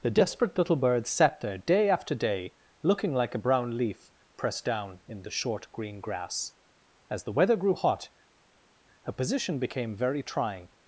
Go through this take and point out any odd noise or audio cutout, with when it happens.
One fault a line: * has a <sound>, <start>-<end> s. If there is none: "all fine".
all fine